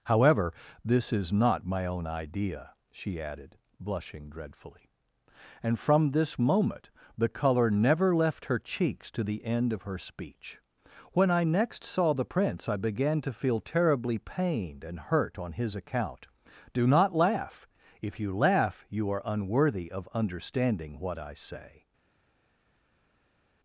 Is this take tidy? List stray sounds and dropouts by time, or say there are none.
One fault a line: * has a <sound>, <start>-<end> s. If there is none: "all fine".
all fine